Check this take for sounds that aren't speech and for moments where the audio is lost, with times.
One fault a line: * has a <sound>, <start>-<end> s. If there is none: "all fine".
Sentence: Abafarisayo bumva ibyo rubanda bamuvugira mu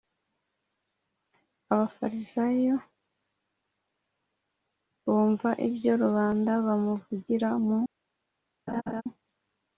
* has a laugh, 8.7-9.0 s